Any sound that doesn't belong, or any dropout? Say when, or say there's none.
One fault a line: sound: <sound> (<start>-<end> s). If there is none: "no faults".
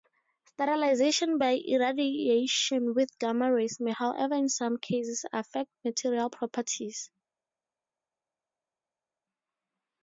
no faults